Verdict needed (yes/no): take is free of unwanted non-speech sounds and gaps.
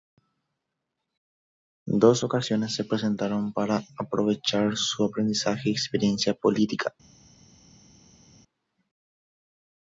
yes